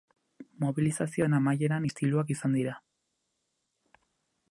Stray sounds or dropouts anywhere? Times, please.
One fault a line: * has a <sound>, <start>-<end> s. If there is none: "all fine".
all fine